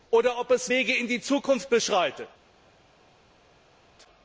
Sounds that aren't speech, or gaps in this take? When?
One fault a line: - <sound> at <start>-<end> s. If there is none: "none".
none